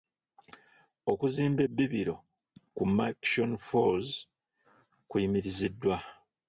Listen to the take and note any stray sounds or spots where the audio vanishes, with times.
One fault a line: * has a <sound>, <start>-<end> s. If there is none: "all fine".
all fine